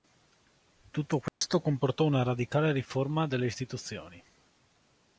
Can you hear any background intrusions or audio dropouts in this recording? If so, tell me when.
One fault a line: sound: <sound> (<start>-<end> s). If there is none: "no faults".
sound: dropout (1.3-1.4 s)